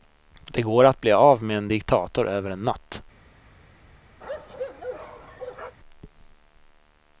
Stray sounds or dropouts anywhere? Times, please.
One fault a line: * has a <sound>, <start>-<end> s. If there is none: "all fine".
* has a bark, 4.2-5.8 s